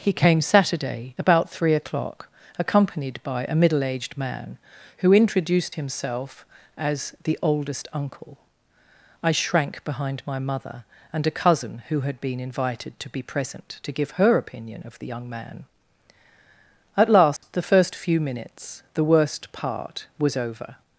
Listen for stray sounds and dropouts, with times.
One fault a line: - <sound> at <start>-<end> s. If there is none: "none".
- dropout at 17.4-17.4 s